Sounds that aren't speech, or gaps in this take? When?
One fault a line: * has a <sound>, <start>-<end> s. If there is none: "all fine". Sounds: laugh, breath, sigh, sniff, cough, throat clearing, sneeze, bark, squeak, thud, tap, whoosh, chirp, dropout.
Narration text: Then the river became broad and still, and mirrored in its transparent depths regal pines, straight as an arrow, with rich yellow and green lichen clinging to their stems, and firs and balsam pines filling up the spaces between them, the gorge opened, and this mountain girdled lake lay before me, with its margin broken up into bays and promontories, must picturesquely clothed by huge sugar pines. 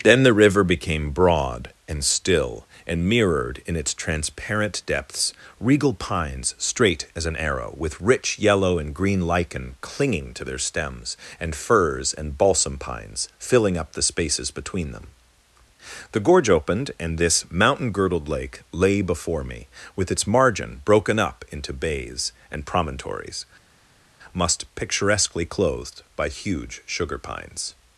all fine